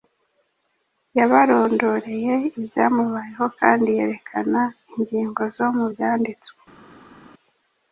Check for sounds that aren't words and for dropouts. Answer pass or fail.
pass